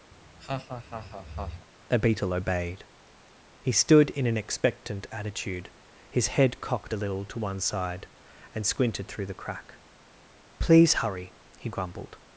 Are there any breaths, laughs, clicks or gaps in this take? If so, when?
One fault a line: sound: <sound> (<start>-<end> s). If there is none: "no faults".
sound: laugh (0.1-1.7 s)